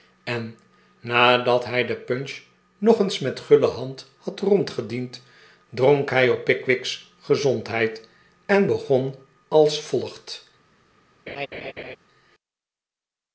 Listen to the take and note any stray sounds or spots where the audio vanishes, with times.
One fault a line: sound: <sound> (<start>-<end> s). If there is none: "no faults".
sound: laugh (11.3-12.0 s)